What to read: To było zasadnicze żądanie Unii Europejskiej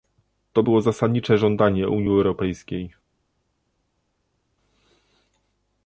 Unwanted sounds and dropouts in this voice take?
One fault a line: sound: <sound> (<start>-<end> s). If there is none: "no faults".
no faults